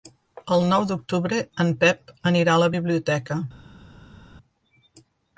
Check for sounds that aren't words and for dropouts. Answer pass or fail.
pass